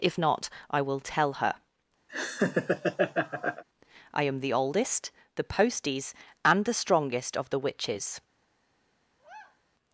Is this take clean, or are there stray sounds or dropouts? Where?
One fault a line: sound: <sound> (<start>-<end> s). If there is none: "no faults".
sound: laugh (2.1-3.6 s)
sound: sigh (9.2-9.6 s)